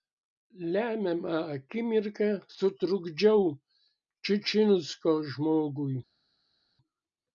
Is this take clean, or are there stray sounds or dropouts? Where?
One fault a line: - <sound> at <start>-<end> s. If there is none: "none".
none